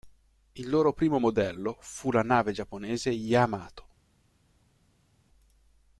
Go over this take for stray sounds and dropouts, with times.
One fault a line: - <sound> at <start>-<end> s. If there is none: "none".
none